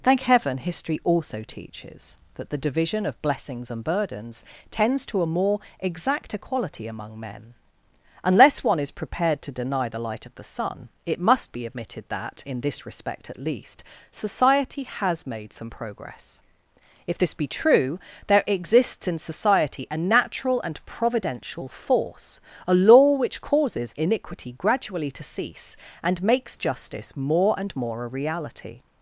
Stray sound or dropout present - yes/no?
no